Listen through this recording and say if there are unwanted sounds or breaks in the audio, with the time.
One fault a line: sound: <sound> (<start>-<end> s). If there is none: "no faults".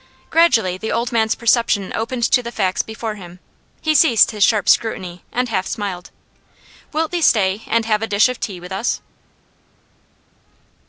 no faults